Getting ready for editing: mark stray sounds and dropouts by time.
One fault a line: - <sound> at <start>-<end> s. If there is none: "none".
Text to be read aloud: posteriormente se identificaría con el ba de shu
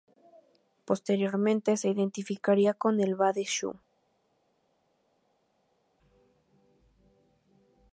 none